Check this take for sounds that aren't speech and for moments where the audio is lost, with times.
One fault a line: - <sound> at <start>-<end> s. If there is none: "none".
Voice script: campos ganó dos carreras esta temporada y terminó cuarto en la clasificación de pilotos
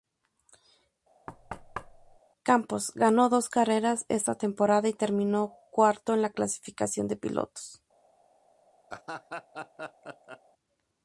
- thud at 1.3-2.2 s
- laugh at 8.9-10.4 s